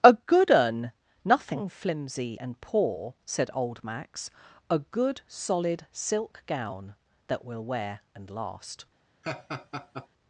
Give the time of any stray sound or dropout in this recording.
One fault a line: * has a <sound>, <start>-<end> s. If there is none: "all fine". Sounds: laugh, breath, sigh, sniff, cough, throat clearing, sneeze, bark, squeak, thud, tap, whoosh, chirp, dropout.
* has a laugh, 9.2-10.1 s